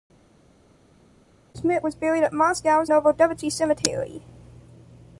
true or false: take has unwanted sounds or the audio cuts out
false